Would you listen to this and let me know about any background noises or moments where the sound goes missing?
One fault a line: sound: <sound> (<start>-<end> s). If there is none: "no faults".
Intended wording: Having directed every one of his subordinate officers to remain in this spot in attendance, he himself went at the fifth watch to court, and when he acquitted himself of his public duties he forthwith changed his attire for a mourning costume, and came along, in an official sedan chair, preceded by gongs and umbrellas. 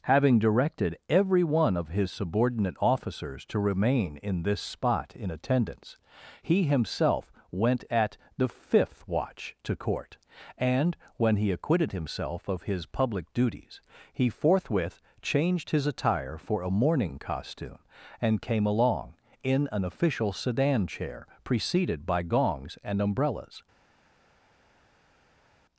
no faults